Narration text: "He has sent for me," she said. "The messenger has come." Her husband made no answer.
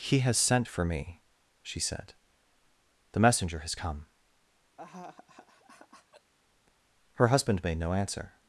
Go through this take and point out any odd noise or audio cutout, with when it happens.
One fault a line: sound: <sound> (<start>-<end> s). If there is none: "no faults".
sound: laugh (4.8-6.3 s)